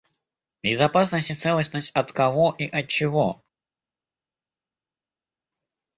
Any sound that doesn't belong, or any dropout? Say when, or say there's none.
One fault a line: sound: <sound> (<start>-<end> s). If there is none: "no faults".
no faults